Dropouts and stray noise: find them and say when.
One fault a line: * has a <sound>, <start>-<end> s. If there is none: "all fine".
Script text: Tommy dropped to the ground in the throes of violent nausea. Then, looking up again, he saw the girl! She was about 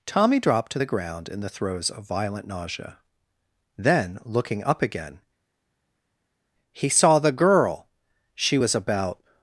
all fine